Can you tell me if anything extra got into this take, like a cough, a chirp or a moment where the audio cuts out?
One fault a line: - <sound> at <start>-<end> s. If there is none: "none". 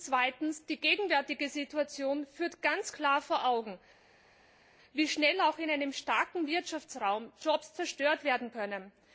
none